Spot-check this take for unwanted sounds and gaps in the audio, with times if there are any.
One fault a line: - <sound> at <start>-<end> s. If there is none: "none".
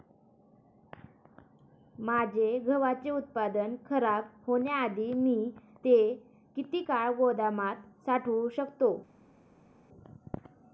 none